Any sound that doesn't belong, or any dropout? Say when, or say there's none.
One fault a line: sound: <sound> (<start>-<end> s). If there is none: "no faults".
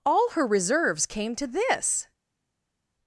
no faults